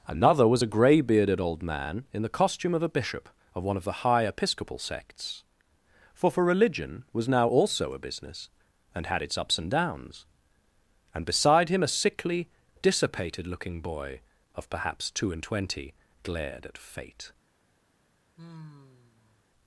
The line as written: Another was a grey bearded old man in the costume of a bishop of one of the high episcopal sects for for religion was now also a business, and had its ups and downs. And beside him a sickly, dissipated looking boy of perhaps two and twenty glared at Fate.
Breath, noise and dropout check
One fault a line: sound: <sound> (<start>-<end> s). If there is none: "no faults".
sound: sigh (18.4-19.4 s)